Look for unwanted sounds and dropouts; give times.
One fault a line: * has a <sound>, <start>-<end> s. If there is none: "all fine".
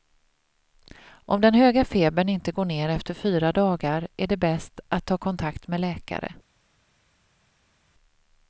all fine